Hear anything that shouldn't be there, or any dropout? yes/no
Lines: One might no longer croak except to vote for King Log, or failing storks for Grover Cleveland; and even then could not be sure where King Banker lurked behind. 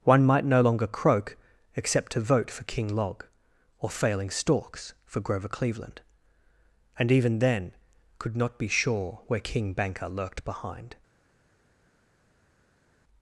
no